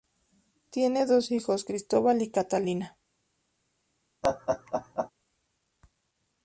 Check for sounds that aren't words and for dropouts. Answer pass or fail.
fail